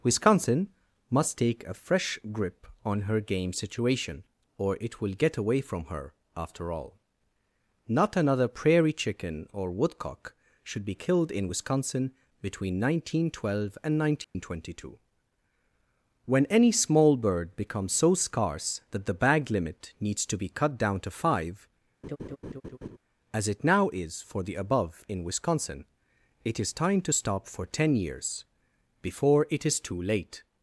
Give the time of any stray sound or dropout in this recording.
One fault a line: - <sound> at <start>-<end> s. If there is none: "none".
- dropout at 14.2-14.4 s
- laugh at 22.0-23.0 s